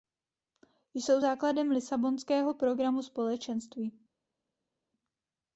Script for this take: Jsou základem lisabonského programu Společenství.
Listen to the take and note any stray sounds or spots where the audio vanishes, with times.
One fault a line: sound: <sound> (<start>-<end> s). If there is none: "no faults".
no faults